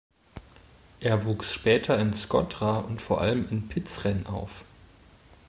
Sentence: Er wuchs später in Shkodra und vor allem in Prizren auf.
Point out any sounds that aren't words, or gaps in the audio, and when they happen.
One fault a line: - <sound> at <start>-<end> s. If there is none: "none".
none